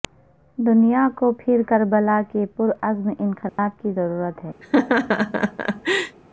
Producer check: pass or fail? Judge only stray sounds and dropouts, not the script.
fail